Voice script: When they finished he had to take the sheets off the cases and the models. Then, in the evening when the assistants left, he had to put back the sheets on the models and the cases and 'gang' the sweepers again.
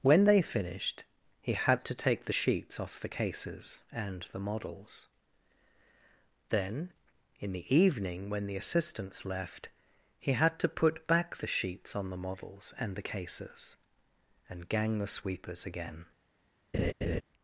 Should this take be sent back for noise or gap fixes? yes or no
yes